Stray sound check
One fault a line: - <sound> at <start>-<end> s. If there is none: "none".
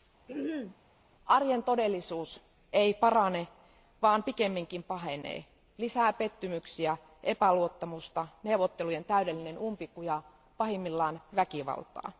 - throat clearing at 0.3-0.8 s